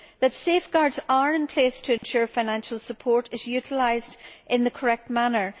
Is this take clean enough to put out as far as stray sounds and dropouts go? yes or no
no